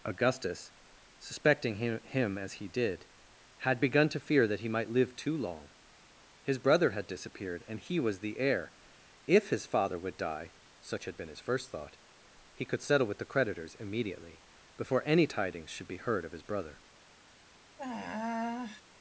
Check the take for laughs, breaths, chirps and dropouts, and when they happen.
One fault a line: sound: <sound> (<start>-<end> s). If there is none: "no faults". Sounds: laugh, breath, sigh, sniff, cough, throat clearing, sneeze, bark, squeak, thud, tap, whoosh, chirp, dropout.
sound: sigh (17.8-18.8 s)